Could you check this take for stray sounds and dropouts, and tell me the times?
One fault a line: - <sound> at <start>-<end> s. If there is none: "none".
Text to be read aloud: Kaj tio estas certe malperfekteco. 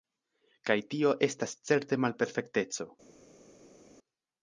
none